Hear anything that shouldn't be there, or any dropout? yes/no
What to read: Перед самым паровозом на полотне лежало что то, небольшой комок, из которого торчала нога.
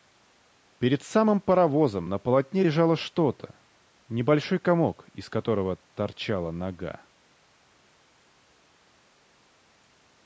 no